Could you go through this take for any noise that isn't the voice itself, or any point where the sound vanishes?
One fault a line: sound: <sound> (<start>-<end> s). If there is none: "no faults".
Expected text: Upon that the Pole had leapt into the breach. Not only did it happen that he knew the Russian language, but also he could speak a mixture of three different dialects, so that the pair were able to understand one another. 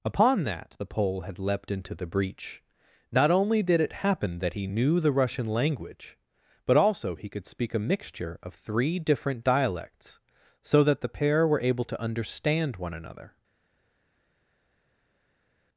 no faults